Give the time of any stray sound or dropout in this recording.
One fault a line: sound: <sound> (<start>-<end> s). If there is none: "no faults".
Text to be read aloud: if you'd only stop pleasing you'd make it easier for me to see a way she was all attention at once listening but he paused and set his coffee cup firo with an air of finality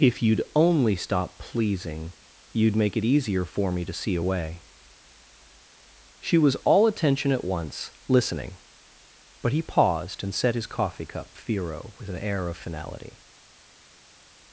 no faults